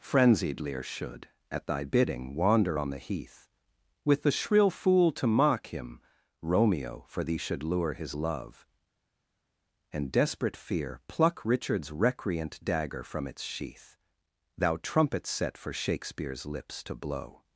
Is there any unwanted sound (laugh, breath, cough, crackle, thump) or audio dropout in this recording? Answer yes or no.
no